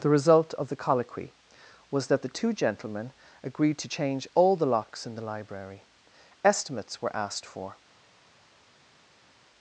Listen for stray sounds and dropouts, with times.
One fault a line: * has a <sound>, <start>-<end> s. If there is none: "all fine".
all fine